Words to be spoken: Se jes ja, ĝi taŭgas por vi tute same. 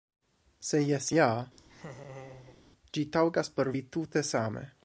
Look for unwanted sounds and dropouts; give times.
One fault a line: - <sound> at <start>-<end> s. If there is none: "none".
- laugh at 1.6-2.6 s